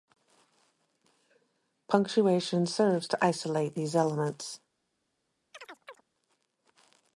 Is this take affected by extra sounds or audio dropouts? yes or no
yes